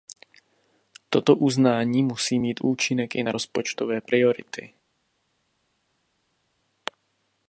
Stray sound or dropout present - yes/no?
no